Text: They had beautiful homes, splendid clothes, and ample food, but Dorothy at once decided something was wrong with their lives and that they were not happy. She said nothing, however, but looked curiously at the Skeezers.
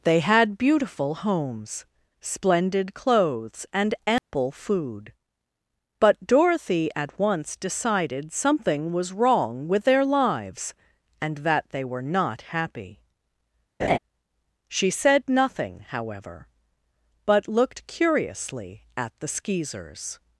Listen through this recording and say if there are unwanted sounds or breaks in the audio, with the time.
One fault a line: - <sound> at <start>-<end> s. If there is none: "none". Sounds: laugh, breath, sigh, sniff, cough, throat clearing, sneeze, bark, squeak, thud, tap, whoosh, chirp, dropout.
- dropout at 4.2-4.3 s
- laugh at 13.8-14.0 s